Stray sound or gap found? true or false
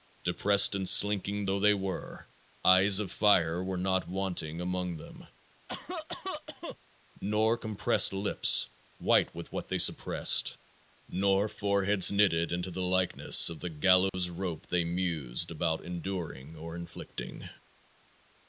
true